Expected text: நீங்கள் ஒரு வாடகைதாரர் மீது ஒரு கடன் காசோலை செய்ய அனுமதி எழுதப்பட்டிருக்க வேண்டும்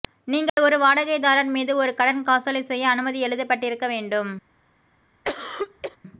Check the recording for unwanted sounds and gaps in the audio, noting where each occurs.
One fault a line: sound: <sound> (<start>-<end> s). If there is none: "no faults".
sound: dropout (0.5-0.6 s)
sound: cough (5.2-6.0 s)